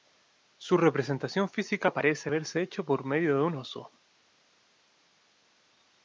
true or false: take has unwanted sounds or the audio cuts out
false